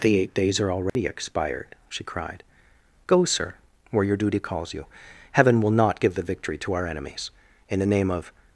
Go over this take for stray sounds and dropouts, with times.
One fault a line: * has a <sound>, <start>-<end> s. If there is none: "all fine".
* has a dropout, 0.9-1.0 s